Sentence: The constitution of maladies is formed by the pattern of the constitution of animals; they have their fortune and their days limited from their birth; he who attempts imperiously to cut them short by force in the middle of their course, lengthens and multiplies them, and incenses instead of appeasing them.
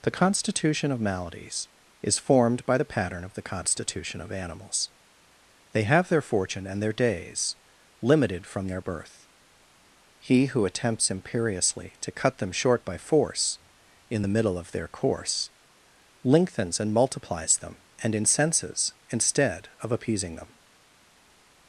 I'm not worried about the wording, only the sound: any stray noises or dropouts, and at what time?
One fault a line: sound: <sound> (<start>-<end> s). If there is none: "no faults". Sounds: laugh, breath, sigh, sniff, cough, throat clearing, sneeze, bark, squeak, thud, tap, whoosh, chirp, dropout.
no faults